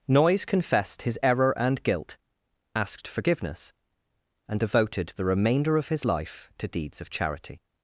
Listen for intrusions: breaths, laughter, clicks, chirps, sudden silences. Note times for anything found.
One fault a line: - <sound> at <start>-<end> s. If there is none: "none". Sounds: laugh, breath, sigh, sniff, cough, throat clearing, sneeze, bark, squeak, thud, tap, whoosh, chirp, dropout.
none